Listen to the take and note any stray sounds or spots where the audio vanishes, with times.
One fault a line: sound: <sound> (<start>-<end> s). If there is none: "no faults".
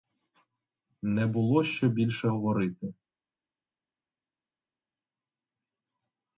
no faults